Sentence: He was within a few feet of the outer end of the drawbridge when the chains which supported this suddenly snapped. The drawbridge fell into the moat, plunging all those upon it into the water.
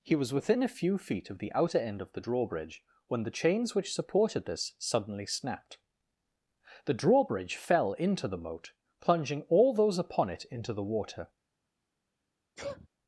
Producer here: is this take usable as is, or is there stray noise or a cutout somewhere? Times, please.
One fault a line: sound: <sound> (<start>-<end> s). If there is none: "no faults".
sound: sneeze (12.6-12.9 s)